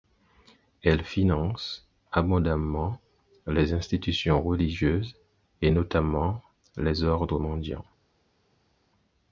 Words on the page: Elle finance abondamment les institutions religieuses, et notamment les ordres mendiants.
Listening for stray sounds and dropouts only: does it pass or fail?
pass